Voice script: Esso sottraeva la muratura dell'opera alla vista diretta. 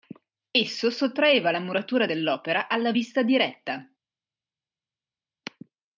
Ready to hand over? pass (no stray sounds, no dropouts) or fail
pass